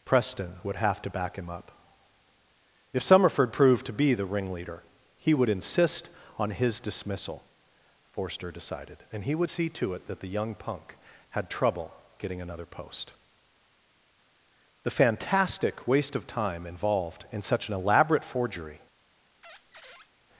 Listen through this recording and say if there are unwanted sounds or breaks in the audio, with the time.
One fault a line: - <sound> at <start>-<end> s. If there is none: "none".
- squeak at 19.4-20.1 s